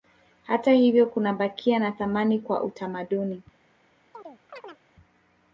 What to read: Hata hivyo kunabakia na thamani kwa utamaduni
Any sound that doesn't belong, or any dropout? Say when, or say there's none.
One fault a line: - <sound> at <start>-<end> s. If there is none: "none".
- chirp at 4.1-4.8 s